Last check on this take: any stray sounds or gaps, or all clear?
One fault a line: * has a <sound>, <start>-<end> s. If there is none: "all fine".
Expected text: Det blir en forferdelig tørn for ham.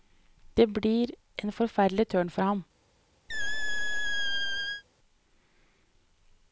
* has a squeak, 3.3-4.8 s